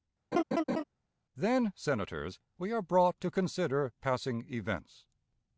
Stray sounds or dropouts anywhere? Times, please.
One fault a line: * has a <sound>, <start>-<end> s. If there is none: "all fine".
* has a laugh, 0.3-0.8 s